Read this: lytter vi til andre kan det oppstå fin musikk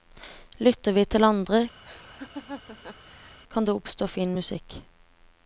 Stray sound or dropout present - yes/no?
yes